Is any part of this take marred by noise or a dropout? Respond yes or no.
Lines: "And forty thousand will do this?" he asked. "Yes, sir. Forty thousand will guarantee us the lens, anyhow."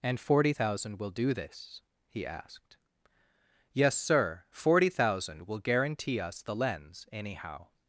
no